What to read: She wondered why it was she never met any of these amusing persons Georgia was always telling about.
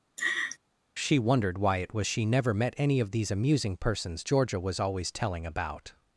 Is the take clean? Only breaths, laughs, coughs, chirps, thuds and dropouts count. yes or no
no